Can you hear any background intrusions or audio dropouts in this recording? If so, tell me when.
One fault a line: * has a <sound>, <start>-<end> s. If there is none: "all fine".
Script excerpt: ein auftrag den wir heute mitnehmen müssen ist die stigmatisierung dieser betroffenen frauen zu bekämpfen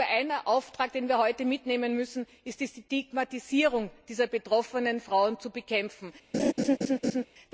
* has a laugh, 6.3-7.3 s